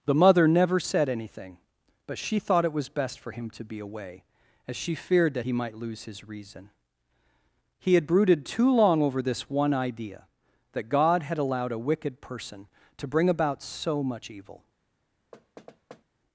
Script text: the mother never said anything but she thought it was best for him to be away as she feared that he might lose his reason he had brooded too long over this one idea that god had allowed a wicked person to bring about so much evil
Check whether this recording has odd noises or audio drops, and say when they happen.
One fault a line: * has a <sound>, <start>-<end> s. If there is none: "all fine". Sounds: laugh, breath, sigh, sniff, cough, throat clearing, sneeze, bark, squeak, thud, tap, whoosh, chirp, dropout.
* has a thud, 15.3-16.0 s